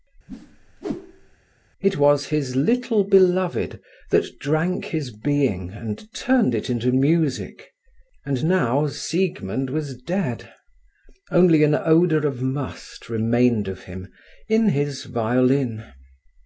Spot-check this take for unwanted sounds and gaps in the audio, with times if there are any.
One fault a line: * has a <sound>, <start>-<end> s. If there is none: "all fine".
* has a whoosh, 0.3-1.4 s